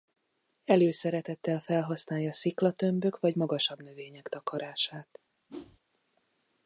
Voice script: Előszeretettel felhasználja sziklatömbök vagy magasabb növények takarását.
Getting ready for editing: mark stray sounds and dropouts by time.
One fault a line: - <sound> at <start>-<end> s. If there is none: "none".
- whoosh at 5.5-5.8 s